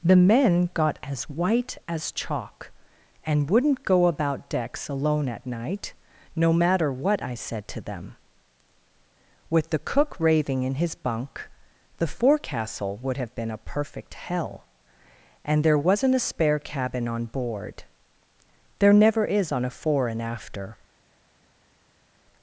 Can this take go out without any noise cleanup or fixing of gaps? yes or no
yes